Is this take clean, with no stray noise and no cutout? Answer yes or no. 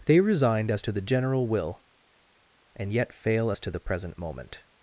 yes